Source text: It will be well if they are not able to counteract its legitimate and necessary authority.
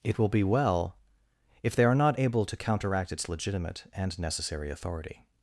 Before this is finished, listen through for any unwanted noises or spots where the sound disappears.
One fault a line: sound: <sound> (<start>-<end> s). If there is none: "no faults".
no faults